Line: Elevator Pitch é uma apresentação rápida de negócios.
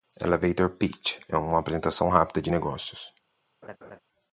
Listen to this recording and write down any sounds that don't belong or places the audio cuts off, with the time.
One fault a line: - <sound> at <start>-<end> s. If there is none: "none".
- laugh at 3.6-4.0 s